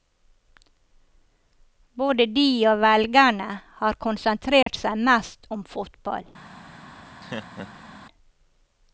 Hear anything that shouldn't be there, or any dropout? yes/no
yes